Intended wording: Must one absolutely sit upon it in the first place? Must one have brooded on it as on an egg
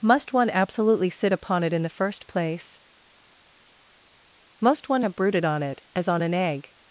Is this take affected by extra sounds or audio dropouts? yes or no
no